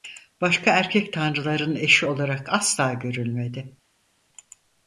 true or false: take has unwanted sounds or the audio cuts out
false